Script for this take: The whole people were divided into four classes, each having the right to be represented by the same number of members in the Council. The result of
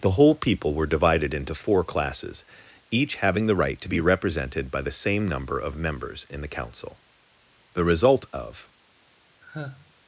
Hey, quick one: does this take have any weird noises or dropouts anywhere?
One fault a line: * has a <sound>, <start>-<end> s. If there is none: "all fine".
* has a sigh, 9.4-9.9 s